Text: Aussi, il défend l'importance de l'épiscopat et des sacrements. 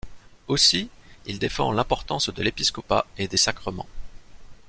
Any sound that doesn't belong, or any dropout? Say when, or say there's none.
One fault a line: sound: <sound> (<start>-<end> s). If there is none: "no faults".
no faults